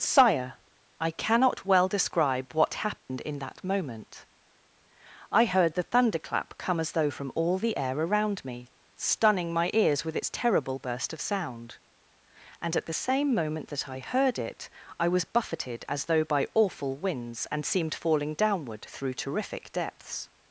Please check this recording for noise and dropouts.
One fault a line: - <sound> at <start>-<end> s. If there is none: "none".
- dropout at 3.0-3.1 s